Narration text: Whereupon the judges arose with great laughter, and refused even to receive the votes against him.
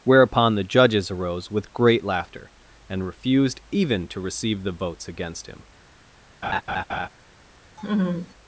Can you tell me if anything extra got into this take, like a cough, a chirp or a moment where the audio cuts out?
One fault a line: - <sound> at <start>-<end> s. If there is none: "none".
- laugh at 6.4-7.1 s
- laugh at 7.8-8.3 s